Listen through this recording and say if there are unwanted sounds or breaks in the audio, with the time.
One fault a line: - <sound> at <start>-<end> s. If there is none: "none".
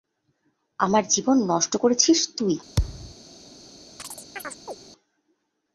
- thud at 2.8-3.2 s
- chirp at 4.0-4.8 s